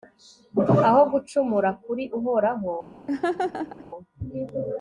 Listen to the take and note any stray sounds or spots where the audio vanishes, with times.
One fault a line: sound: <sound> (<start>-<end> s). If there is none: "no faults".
sound: laugh (3.1-3.8 s)